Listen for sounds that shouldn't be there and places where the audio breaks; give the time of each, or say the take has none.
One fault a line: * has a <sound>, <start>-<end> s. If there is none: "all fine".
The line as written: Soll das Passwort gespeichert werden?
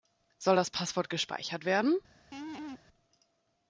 * has a laugh, 2.3-2.8 s